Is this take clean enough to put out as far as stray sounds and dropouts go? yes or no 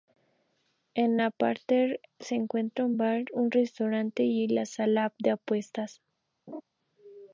no